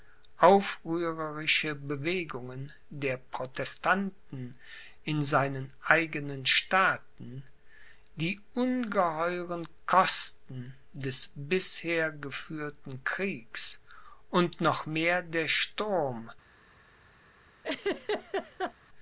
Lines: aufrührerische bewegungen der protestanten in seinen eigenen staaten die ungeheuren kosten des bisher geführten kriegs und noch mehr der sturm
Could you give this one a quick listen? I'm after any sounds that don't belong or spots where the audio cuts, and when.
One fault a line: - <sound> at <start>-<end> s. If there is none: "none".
- laugh at 17.6-18.7 s